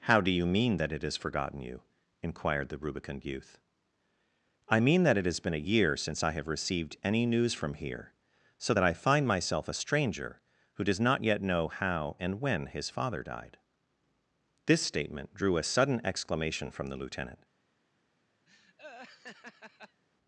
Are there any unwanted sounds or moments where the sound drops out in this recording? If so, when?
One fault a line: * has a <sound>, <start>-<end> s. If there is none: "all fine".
* has a laugh, 18.5-20.0 s